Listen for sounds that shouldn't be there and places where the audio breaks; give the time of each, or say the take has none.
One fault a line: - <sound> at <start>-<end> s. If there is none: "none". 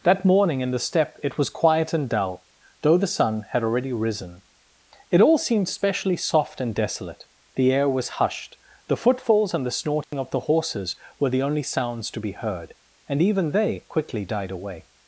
- dropout at 10.0-10.1 s